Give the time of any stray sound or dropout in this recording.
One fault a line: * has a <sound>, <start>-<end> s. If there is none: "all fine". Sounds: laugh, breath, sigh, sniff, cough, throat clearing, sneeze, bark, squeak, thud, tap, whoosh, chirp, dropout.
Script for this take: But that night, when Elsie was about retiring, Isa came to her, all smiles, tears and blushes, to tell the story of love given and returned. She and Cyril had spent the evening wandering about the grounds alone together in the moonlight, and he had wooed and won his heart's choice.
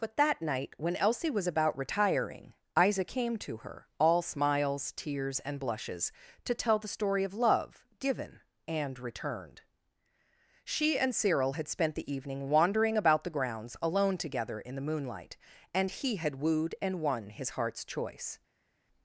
all fine